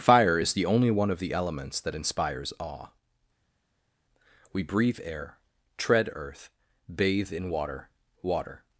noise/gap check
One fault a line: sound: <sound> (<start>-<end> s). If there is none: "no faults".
no faults